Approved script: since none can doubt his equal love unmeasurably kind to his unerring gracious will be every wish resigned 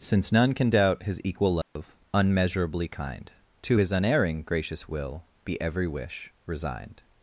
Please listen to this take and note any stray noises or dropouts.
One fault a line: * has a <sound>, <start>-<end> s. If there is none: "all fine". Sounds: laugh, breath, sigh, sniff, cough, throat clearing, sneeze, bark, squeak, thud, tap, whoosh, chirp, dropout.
* has a dropout, 1.6-1.8 s